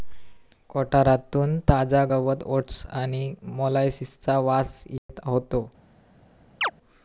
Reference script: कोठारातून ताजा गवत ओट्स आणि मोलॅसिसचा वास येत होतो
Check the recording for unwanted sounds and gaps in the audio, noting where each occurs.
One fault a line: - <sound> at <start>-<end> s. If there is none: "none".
- dropout at 5.0-5.1 s
- chirp at 6.6-6.7 s